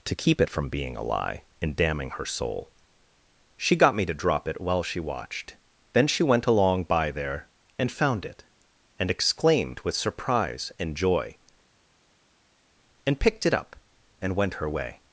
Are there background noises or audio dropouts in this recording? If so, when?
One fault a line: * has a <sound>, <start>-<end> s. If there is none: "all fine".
all fine